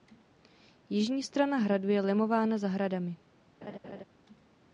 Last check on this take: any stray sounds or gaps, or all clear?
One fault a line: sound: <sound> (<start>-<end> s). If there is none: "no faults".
sound: laugh (3.6-4.0 s)